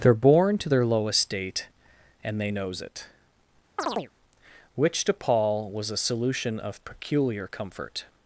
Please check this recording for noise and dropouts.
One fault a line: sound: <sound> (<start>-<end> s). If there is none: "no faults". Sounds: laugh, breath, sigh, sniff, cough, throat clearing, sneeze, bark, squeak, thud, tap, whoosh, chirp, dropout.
sound: chirp (3.8-4.1 s)